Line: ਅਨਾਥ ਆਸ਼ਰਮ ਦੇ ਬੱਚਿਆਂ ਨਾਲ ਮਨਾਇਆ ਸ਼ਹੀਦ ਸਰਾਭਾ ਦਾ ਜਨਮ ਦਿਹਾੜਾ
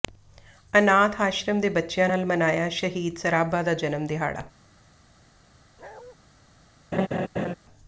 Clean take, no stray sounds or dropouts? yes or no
no